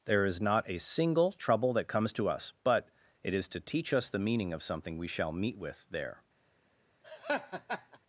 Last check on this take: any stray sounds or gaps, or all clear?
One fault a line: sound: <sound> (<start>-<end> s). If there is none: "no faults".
sound: laugh (7.0-8.0 s)